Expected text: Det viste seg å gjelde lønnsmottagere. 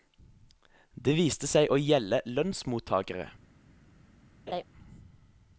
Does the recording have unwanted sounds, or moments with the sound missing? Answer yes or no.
yes